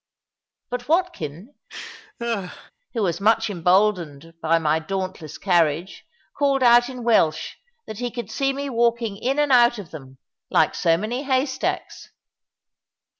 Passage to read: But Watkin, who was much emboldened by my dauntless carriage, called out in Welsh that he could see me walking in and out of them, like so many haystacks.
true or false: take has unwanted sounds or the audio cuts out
true